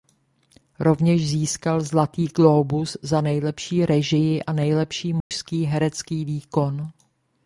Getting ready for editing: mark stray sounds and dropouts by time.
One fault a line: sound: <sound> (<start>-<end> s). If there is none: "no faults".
sound: dropout (5.2-5.3 s)